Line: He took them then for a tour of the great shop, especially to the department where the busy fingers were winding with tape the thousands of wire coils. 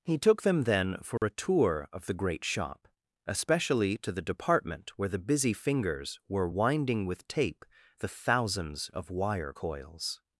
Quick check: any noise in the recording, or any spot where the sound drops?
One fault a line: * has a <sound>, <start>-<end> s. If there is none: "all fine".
* has a dropout, 1.2-1.2 s